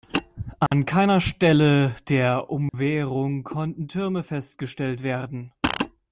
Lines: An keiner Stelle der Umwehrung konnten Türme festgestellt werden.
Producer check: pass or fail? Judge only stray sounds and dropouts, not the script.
fail